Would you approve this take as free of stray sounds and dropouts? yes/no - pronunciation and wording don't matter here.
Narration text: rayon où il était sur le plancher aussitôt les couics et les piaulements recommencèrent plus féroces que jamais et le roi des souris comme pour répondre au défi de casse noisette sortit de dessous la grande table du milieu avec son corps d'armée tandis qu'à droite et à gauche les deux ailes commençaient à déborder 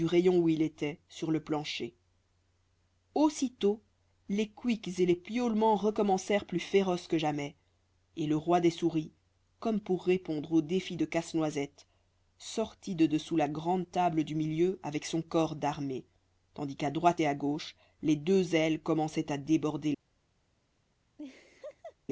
no